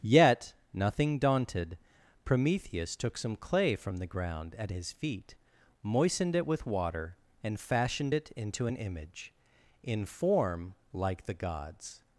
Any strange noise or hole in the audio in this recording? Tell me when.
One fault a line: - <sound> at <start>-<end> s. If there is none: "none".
none